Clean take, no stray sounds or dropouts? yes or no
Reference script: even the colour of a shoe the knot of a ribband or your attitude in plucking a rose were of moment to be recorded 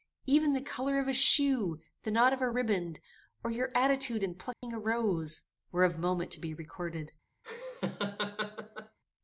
no